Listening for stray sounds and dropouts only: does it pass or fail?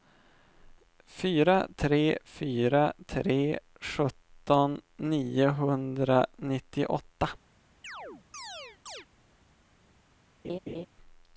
fail